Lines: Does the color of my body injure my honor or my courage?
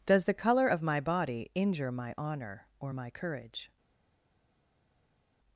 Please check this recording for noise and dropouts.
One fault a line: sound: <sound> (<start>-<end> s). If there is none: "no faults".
no faults